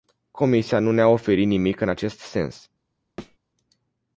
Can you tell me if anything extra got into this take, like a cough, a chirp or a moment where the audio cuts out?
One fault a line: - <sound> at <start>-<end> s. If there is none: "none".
- thud at 3.2-3.4 s